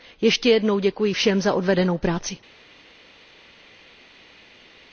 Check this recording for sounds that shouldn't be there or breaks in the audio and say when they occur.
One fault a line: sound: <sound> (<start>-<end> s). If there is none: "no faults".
no faults